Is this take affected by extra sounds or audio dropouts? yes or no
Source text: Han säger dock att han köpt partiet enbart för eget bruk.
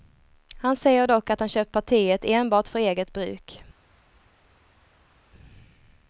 no